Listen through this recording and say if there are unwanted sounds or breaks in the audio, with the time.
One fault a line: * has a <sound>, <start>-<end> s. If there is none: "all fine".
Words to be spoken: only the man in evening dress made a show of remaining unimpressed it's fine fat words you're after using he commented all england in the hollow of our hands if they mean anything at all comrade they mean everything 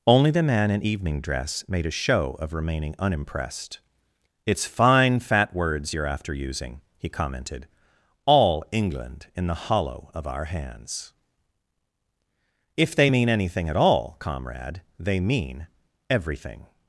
all fine